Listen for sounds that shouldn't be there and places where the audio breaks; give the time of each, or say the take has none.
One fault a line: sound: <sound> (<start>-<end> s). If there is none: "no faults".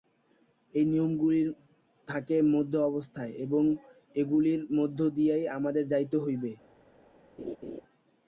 sound: laugh (7.4-7.8 s)